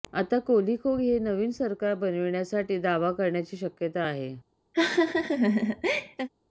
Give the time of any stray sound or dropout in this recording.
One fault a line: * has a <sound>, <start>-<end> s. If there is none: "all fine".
* has a laugh, 4.7-6.3 s